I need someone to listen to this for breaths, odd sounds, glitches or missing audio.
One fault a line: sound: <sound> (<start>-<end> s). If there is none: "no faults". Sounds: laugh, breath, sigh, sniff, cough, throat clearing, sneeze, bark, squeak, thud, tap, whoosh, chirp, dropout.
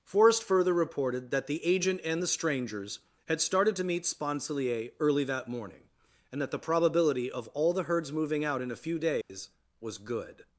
sound: dropout (9.2-9.3 s)